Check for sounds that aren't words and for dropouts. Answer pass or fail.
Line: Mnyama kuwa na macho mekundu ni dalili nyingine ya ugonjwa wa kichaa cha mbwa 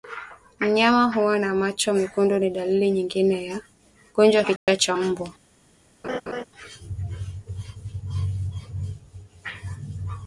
fail